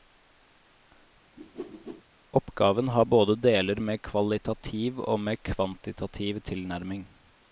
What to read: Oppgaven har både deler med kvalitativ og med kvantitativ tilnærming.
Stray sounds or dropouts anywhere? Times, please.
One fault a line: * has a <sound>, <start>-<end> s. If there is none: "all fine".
* has a whoosh, 1.4-2.0 s